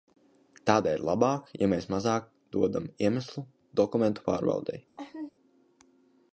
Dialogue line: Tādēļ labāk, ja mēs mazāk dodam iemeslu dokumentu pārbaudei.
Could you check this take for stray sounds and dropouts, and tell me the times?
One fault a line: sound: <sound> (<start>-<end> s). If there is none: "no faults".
sound: laugh (5.0-5.3 s)